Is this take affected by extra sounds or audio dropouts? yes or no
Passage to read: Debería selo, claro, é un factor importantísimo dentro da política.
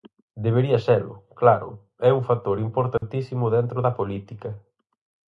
yes